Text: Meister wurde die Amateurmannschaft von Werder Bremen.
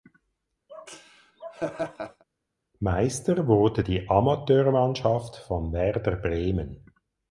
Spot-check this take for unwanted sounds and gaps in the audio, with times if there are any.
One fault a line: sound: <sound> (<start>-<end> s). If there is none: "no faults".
sound: laugh (0.7-2.2 s)